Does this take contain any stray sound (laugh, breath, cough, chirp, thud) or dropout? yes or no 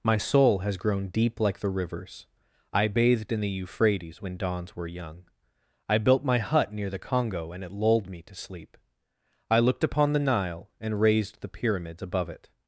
no